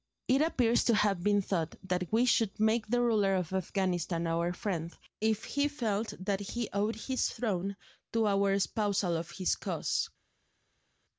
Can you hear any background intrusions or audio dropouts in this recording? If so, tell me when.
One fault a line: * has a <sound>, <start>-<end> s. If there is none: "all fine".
all fine